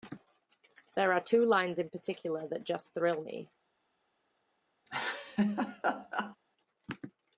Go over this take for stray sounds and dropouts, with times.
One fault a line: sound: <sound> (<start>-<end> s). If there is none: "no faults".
sound: laugh (4.9-6.4 s)